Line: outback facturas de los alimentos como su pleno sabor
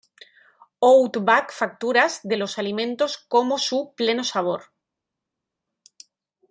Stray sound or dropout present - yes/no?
no